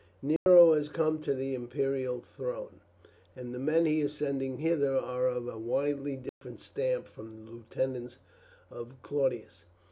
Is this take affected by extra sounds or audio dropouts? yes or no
yes